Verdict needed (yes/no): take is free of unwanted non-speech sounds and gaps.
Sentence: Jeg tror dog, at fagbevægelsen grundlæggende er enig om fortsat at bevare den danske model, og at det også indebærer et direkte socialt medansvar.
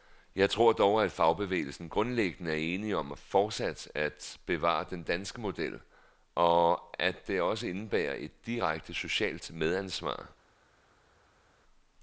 yes